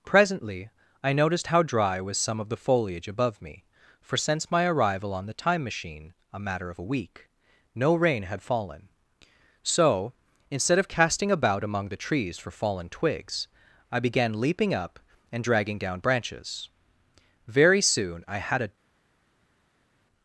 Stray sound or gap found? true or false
false